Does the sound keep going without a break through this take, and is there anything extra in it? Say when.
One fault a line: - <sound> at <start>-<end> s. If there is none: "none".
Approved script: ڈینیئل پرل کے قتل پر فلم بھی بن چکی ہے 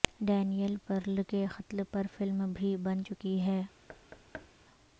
- thud at 3.9-4.5 s